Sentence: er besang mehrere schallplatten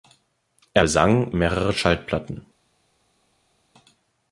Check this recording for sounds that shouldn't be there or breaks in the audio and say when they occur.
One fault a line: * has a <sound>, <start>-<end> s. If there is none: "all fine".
all fine